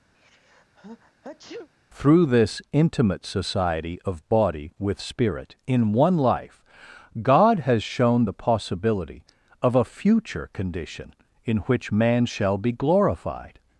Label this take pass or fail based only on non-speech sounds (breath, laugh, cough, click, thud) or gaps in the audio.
fail